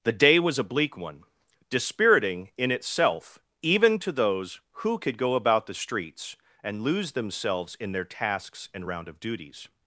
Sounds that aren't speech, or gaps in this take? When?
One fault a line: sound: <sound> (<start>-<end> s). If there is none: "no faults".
no faults